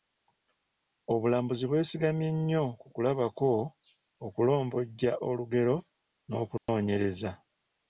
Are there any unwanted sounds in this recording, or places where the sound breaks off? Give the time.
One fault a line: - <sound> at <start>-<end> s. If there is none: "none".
- dropout at 6.6-6.7 s